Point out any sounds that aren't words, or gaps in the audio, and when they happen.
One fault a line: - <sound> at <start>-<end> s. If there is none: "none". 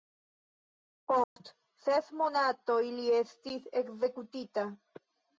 - dropout at 1.2-1.4 s